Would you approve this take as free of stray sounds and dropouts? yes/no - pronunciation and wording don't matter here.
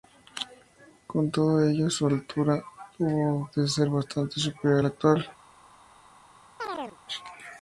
no